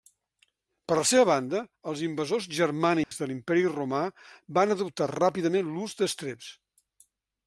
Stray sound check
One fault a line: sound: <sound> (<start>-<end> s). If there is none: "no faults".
sound: dropout (3.0-3.1 s)